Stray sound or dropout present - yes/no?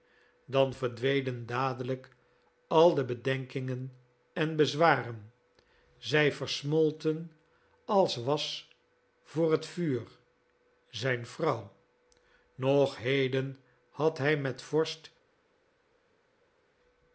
no